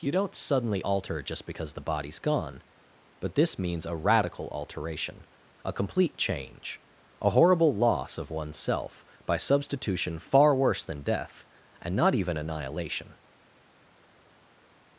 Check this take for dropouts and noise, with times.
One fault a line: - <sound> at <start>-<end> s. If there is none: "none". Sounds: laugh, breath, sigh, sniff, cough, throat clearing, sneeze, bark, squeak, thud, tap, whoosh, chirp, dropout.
none